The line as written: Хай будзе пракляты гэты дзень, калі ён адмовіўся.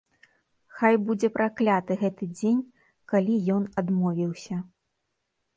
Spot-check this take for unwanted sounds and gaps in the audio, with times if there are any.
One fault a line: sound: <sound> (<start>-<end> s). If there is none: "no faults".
no faults